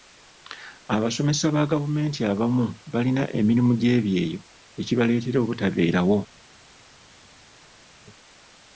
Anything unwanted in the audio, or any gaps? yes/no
no